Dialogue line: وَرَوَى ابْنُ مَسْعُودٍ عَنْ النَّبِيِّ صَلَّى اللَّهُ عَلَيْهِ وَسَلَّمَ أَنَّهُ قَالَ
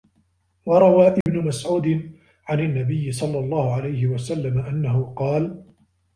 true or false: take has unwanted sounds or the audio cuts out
true